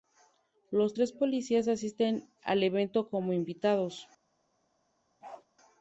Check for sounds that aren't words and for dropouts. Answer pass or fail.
fail